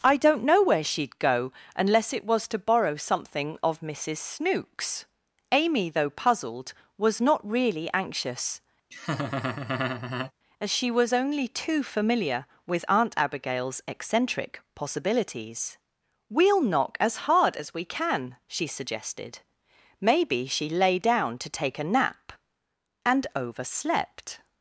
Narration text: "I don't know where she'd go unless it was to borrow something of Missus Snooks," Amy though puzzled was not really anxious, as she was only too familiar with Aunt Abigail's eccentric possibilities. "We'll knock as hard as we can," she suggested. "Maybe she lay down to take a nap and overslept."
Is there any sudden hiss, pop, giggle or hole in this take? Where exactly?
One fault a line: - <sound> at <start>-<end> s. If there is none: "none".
- laugh at 8.9-10.3 s